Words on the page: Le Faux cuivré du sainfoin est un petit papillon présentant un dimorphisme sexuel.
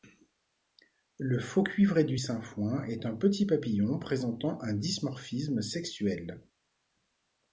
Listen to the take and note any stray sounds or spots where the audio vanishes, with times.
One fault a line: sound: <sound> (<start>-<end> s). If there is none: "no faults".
no faults